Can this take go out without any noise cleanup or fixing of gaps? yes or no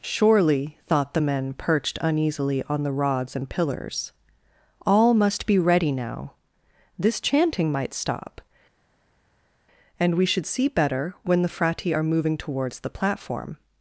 yes